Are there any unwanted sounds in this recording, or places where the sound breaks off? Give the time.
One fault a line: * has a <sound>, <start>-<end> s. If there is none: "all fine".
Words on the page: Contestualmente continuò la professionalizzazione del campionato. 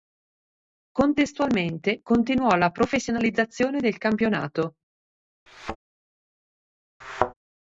* has a thud, 5.5-5.8 s
* has a thud, 7.0-7.3 s